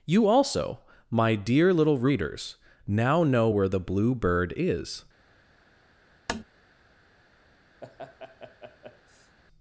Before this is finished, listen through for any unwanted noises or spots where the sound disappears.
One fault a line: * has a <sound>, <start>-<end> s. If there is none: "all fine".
* has a tap, 6.3-6.4 s
* has a laugh, 7.8-9.4 s